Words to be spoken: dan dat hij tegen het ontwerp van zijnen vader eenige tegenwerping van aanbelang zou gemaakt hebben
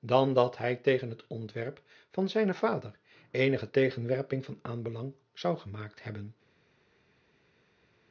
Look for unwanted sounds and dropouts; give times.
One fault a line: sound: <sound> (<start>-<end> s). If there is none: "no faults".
no faults